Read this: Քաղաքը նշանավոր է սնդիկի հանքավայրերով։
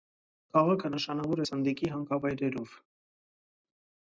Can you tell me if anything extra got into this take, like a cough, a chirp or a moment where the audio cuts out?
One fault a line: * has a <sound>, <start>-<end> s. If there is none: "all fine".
all fine